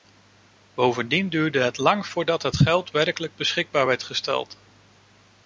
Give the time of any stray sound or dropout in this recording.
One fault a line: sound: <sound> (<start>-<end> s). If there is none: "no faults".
no faults